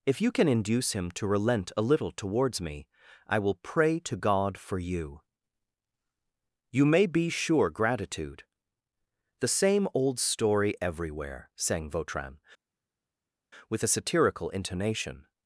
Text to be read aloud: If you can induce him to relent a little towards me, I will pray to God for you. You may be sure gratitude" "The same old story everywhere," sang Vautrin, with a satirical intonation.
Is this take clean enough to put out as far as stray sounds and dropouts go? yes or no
yes